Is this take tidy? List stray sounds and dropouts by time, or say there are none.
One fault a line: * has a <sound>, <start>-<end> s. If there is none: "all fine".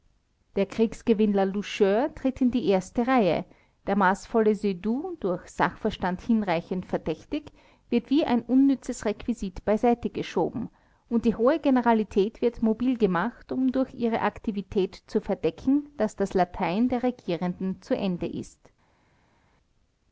all fine